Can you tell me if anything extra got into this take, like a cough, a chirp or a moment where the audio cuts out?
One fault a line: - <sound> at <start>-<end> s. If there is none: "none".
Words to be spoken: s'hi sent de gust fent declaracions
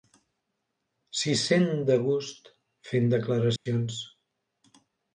- dropout at 3.6-3.7 s